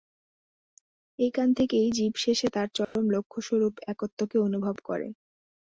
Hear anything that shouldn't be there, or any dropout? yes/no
yes